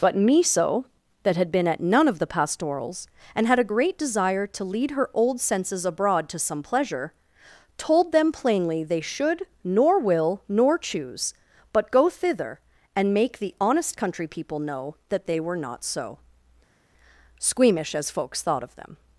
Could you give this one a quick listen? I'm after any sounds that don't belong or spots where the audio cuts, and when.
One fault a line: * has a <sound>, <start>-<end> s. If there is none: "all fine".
all fine